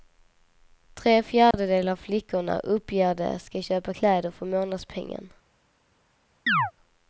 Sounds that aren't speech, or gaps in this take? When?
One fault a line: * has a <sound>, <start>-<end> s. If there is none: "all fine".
* has a dropout, 1.5-1.5 s
* has a chirp, 6.5-6.7 s